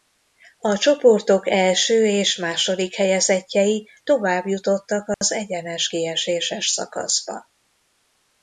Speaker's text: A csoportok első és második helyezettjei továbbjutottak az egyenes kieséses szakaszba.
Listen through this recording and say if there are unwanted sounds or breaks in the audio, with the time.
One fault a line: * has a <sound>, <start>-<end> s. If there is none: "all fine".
* has a dropout, 5.1-5.2 s